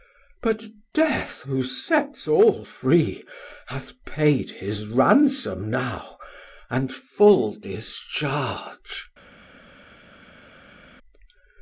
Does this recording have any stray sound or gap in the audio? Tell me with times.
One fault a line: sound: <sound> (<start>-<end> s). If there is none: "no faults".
no faults